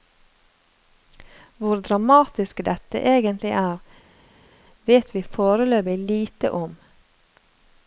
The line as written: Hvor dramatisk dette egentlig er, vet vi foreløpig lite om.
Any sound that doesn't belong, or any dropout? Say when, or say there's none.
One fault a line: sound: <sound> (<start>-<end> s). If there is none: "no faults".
no faults